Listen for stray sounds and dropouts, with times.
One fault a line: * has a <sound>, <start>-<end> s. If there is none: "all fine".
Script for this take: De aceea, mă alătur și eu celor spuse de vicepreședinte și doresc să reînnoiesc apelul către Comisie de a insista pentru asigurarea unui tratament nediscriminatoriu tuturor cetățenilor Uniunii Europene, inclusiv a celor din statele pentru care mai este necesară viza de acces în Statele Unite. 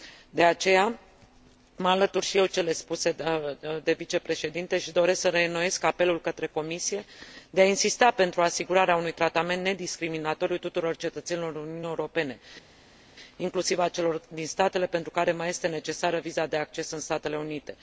all fine